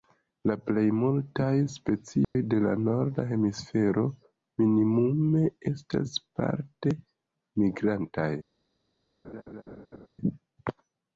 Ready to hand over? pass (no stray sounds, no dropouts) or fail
fail